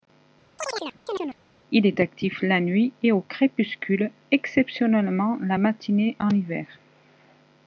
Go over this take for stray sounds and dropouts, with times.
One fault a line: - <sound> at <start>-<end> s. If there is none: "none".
- chirp at 0.6-1.4 s